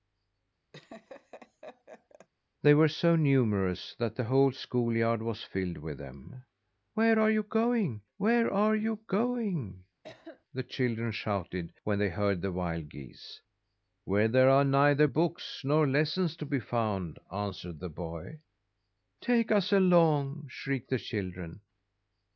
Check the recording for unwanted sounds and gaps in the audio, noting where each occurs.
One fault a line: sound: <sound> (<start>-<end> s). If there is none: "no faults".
sound: laugh (0.7-2.3 s)
sound: cough (10.0-10.4 s)